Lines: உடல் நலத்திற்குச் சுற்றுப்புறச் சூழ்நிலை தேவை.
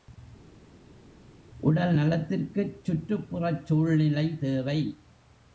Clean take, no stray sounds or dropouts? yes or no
yes